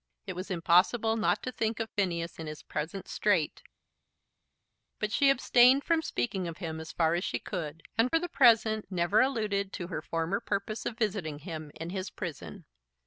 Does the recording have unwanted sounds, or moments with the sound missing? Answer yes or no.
no